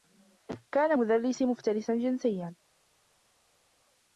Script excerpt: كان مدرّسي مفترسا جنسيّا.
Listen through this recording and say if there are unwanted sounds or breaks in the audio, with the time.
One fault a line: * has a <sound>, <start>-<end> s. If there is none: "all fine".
all fine